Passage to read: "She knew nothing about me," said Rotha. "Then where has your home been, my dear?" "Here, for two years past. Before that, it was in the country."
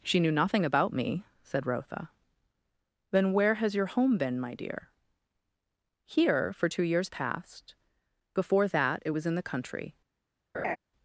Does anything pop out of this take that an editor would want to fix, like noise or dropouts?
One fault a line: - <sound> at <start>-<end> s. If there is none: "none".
- laugh at 10.5-10.8 s